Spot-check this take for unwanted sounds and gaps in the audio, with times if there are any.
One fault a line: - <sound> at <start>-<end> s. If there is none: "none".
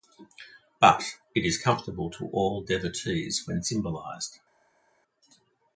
none